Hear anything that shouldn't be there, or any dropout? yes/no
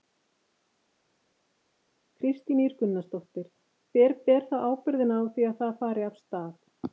no